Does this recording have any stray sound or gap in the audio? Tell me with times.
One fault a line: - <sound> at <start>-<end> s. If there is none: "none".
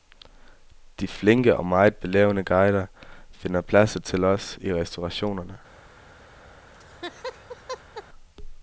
- laugh at 6.7-8.0 s